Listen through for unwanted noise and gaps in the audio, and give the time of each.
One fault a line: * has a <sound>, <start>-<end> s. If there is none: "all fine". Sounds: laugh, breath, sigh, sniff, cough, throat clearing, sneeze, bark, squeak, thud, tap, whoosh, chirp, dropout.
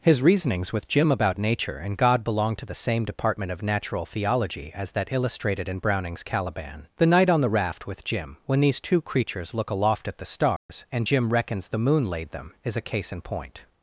* has a dropout, 10.6-10.7 s